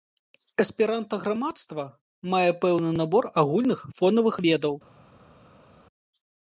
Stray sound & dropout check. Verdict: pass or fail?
pass